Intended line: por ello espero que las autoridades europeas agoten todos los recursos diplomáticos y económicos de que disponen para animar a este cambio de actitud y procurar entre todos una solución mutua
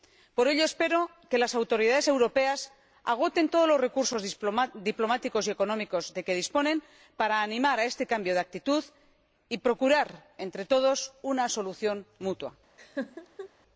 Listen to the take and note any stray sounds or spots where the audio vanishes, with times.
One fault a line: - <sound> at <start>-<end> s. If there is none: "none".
- laugh at 12.8-13.5 s